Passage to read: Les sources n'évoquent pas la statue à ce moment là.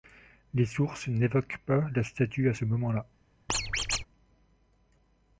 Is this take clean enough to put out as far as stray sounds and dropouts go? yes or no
no